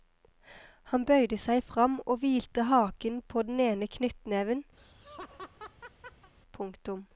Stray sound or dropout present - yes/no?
yes